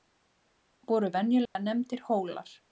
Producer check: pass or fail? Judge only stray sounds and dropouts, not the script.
fail